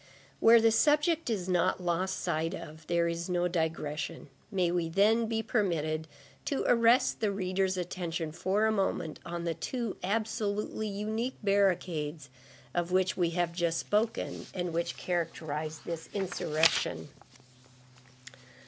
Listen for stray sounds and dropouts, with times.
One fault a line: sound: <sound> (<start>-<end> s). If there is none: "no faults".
no faults